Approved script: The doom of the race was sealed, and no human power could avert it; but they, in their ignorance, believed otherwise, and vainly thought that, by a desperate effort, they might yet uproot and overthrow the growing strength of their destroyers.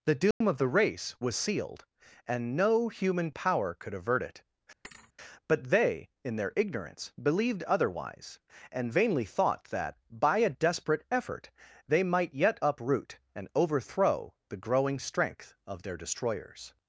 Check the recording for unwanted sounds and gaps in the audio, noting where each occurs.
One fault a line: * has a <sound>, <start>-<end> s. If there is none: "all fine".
* has a dropout, 0.3-0.4 s
* has a thud, 4.8-5.1 s